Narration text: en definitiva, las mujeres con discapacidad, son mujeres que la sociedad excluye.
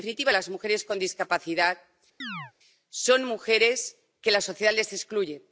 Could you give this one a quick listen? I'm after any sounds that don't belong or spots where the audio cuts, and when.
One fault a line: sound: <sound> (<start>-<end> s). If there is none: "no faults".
sound: chirp (2.2-2.5 s)